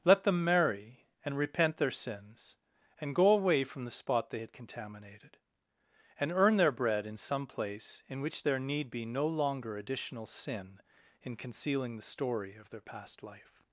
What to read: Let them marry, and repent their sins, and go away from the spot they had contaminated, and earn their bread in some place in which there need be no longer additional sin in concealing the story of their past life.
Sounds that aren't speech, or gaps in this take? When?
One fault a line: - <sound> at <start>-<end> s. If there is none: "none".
none